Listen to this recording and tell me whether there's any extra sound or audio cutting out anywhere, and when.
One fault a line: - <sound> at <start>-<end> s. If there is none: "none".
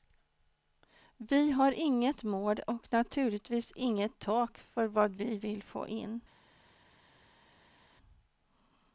none